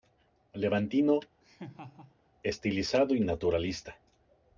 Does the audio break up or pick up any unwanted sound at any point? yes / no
yes